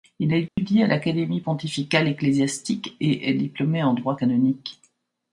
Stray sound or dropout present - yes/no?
yes